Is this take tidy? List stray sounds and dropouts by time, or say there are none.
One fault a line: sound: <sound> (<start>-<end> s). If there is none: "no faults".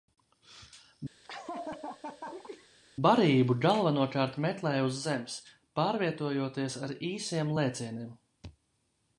sound: laugh (1.2-2.7 s)